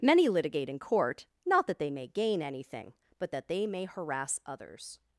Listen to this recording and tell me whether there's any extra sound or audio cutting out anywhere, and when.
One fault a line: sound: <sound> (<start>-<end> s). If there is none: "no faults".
no faults